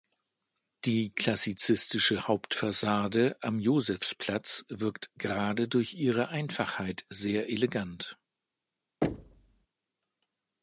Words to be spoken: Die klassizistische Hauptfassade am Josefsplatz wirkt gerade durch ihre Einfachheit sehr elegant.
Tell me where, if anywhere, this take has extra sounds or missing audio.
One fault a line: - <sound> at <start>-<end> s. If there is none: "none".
- thud at 9.0-9.7 s